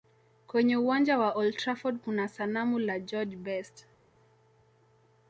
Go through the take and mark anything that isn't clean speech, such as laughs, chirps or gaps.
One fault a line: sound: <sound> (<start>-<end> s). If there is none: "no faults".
no faults